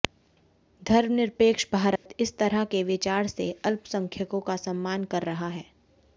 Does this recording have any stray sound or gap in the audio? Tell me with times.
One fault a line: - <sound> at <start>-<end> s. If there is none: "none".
- dropout at 2.0-2.1 s